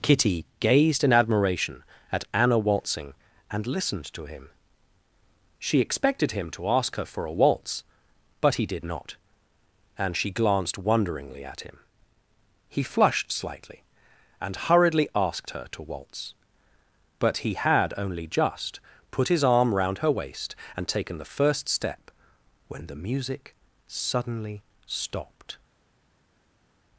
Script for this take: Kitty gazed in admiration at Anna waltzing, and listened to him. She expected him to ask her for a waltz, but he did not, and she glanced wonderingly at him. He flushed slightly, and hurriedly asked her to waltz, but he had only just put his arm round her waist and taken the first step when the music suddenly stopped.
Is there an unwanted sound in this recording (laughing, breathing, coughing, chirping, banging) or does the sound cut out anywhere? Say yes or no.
no